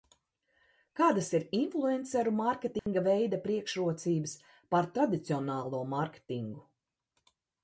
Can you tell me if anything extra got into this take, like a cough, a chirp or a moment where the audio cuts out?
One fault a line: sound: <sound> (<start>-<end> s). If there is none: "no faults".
sound: dropout (2.8-2.9 s)